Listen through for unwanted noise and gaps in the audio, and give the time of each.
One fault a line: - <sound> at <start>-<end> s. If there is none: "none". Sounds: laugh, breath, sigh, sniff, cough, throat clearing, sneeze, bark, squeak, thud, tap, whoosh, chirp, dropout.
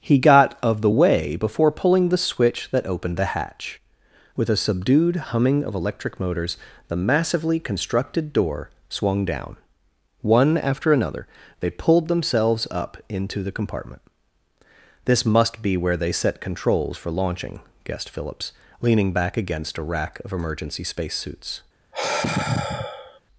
- sigh at 21.9-23.2 s